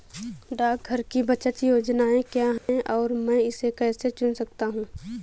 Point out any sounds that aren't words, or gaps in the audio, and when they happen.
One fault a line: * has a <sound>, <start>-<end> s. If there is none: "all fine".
* has a dropout, 2.6-2.7 s